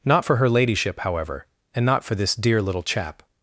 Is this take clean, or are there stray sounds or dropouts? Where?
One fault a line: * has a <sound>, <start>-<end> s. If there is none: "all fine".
all fine